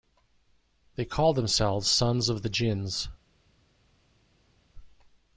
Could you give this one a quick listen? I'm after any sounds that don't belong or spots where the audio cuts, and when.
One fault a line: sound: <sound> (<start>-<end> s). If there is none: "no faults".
no faults